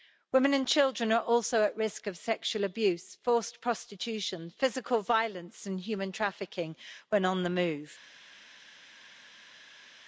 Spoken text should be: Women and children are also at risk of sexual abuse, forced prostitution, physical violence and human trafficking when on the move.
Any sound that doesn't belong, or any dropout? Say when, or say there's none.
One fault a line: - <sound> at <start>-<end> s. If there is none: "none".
none